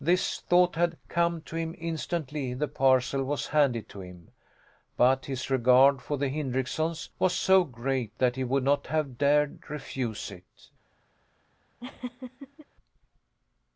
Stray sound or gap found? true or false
true